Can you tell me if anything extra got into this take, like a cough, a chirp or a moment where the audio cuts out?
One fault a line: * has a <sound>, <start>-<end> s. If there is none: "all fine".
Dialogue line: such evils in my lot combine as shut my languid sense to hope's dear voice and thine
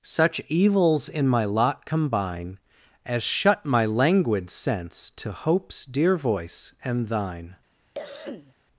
* has a cough, 7.9-8.5 s